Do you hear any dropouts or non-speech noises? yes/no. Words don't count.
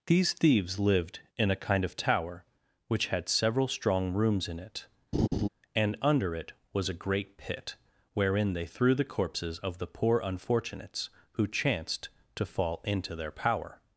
yes